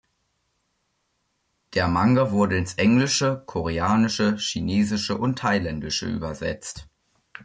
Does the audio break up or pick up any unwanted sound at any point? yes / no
no